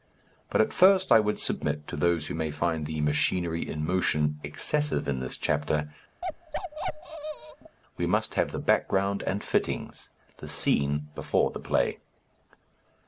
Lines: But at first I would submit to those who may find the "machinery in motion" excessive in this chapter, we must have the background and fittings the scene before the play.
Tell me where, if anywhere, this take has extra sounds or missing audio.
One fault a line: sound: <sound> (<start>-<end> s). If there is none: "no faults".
sound: bark (6.2-7.8 s)